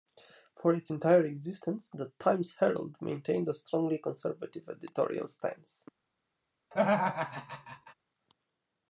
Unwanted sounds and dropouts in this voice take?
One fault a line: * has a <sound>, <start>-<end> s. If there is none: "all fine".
* has a laugh, 6.7-7.9 s